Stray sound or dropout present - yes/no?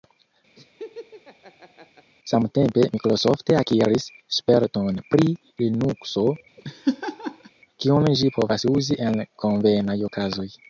yes